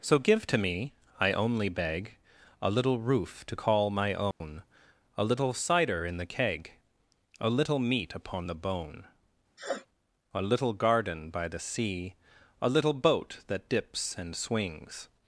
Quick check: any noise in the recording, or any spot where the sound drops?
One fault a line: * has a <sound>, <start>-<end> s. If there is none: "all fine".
* has a dropout, 4.3-4.4 s
* has a sniff, 9.6-9.9 s